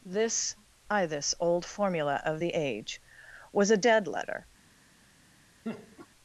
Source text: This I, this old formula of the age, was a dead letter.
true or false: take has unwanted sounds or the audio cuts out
true